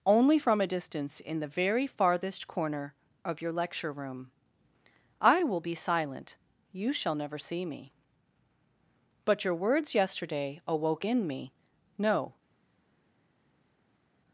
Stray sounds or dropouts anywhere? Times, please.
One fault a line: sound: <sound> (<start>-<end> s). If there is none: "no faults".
no faults